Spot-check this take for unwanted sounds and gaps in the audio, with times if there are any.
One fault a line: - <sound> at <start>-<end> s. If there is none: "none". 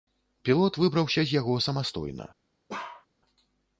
- bark at 2.7-3.1 s